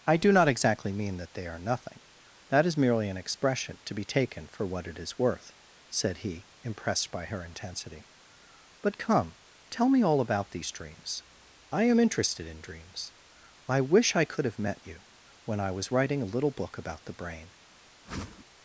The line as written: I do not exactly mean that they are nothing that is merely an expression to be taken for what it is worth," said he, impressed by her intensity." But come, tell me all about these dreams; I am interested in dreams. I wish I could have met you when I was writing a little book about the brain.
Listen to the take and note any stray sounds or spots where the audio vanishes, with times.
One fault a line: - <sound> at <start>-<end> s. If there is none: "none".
- whoosh at 18.1-18.5 s